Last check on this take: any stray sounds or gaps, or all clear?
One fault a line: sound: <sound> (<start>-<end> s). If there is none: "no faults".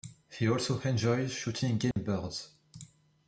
sound: dropout (1.9-2.0 s)